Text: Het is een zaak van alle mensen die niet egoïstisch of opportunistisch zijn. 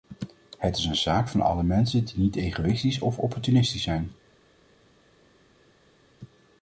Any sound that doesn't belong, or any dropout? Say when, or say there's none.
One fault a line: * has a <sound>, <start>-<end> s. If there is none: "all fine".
all fine